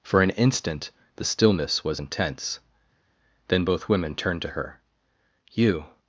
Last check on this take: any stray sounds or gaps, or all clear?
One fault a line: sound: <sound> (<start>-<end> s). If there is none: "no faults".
no faults